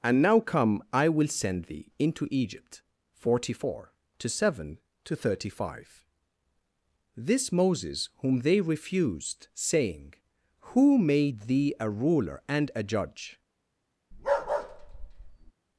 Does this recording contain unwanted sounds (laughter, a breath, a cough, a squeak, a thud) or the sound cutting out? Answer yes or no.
yes